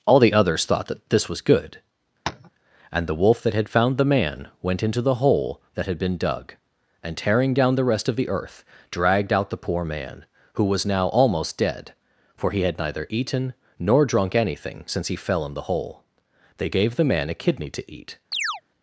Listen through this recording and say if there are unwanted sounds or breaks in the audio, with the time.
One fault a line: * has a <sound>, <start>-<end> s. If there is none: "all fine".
* has a tap, 2.3-2.5 s
* has a chirp, 18.3-18.6 s